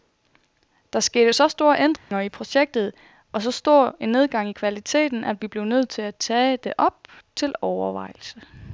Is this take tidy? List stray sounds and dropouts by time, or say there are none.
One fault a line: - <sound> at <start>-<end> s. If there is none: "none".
- dropout at 2.0-2.1 s